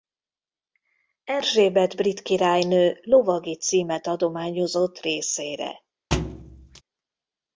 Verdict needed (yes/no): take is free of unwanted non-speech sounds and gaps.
no